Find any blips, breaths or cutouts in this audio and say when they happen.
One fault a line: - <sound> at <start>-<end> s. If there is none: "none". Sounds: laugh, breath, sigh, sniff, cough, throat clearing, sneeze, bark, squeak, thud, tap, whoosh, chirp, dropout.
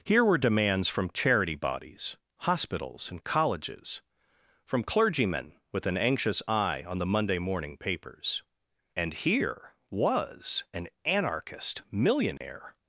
- dropout at 12.4-12.4 s